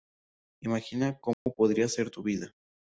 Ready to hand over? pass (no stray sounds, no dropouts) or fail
fail